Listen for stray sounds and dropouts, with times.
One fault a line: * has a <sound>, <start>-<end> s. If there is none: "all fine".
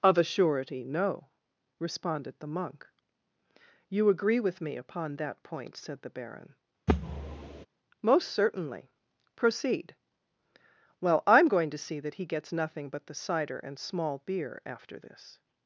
* has a thud, 6.9-7.7 s